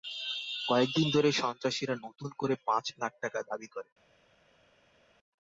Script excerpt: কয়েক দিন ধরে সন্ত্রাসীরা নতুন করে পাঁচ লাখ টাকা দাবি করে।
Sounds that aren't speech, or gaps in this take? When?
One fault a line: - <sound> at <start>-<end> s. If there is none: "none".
none